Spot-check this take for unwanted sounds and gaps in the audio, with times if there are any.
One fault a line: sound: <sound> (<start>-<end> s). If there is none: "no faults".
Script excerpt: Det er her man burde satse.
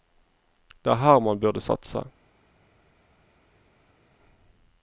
no faults